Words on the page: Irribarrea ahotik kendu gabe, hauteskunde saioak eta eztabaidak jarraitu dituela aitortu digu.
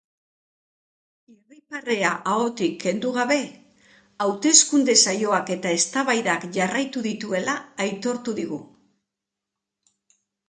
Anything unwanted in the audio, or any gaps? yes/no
no